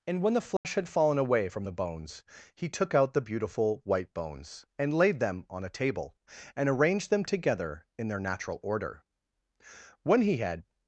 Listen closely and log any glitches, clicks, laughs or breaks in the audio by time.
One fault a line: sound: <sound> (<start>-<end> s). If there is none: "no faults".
sound: dropout (0.6-0.6 s)